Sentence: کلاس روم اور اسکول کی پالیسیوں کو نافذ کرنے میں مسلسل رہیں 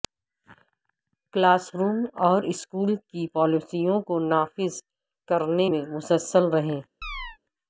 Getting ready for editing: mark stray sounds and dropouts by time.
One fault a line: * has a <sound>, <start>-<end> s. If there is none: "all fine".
* has a chirp, 7.0-7.4 s